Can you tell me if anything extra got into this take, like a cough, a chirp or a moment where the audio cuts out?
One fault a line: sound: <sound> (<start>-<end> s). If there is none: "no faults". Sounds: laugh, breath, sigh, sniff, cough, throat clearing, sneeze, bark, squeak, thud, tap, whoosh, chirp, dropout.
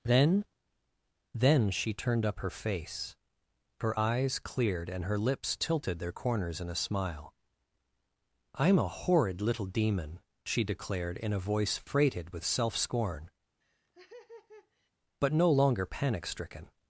sound: laugh (13.6-14.9 s)